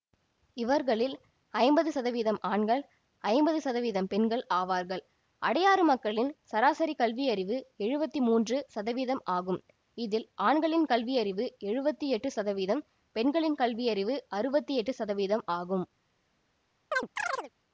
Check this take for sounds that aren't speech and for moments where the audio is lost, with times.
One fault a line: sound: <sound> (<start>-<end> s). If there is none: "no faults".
sound: chirp (16.9-17.5 s)